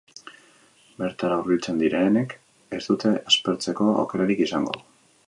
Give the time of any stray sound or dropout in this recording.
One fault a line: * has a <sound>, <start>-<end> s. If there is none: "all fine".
all fine